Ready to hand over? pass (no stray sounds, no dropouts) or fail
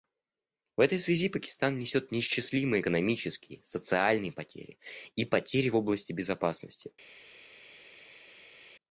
pass